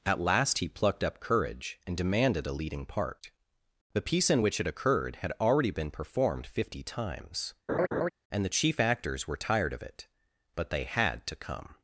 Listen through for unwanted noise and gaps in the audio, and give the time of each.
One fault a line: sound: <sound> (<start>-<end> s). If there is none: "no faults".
sound: laugh (7.7-8.1 s)